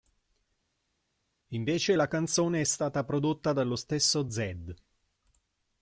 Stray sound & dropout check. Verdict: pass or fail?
pass